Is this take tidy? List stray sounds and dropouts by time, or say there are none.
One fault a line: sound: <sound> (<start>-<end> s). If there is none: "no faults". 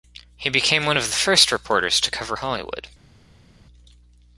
no faults